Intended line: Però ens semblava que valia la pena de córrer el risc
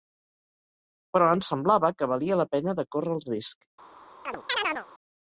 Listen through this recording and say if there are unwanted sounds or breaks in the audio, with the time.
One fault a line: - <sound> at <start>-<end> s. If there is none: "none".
- chirp at 4.3-4.9 s